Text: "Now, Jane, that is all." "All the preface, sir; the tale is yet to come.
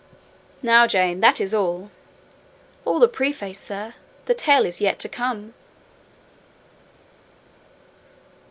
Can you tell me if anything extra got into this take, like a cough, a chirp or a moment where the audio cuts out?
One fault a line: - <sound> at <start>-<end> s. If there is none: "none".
none